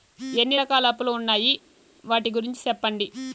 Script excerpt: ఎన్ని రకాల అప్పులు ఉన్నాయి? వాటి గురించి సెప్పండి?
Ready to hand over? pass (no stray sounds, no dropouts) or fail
pass